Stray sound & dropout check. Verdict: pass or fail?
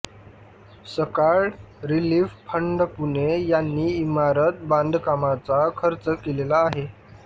pass